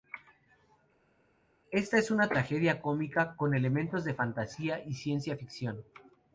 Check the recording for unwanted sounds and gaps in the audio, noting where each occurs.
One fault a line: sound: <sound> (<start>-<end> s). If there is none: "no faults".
no faults